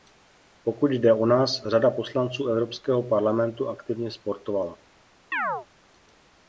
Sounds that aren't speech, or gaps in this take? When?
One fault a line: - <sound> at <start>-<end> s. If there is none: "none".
- chirp at 5.3-5.7 s